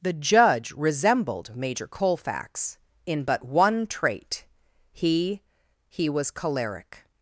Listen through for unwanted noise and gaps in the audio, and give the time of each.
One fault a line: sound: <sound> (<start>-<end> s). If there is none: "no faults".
no faults